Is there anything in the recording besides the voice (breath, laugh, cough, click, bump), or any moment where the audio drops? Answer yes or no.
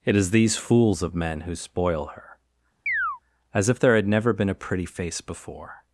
yes